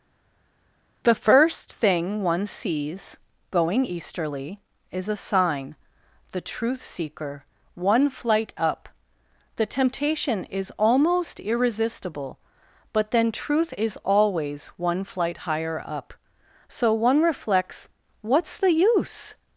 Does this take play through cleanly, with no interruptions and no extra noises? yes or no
yes